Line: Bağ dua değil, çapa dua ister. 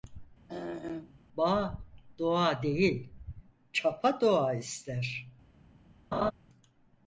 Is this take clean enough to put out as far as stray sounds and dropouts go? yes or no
no